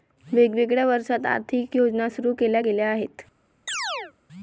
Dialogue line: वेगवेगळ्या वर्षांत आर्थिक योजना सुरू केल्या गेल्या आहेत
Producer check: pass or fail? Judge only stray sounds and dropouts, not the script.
fail